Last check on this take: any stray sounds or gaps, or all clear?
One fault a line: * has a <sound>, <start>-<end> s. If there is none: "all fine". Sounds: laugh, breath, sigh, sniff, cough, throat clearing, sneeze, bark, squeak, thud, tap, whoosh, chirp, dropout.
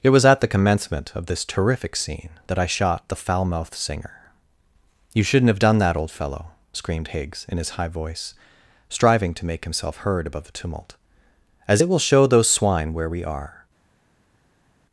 all fine